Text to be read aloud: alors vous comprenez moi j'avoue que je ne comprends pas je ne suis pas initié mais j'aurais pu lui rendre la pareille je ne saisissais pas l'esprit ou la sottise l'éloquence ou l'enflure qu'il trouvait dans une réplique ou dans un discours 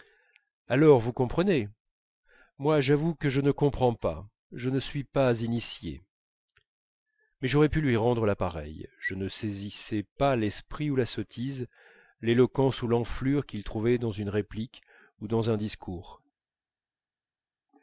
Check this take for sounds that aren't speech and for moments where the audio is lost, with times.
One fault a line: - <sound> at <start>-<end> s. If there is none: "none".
none